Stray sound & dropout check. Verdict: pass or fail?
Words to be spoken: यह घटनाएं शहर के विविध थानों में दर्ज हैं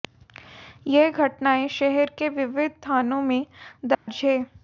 fail